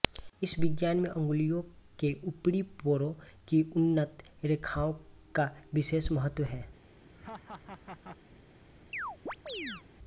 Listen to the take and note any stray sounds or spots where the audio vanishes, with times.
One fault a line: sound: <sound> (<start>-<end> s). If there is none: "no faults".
sound: laugh (7.1-8.2 s)
sound: chirp (8.9-9.8 s)